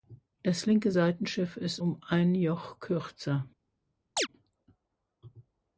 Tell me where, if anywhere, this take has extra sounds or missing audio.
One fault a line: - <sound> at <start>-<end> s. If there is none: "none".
- chirp at 4.2-4.3 s